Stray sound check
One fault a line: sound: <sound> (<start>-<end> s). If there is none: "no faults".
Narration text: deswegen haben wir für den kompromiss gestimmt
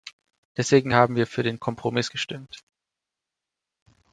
no faults